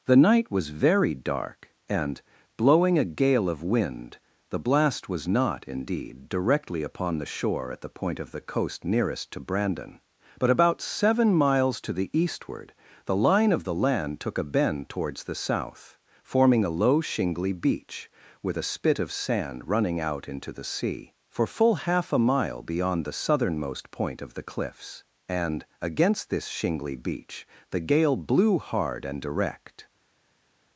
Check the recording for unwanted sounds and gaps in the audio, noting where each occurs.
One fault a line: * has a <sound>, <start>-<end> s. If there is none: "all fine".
all fine